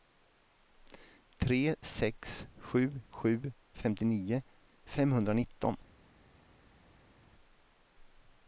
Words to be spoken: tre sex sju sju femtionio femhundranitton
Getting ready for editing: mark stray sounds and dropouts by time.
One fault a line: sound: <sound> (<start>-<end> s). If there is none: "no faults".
no faults